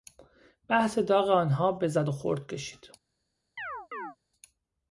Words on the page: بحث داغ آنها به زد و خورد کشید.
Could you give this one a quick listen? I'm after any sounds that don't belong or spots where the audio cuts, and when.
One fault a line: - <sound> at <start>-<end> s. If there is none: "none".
- chirp at 3.6-4.2 s